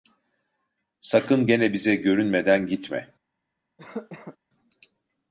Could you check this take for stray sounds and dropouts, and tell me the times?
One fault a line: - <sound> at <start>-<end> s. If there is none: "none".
- cough at 3.8-4.4 s